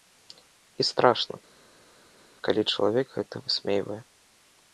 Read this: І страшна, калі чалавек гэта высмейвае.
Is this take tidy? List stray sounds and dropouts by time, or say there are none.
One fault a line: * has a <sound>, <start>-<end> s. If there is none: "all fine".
all fine